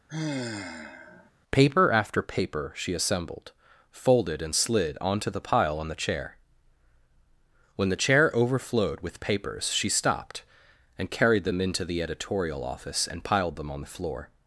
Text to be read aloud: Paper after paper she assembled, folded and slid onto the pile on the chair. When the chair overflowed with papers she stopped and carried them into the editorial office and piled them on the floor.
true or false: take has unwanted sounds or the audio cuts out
true